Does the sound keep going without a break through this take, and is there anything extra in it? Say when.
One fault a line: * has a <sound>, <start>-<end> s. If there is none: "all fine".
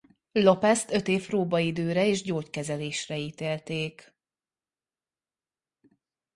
all fine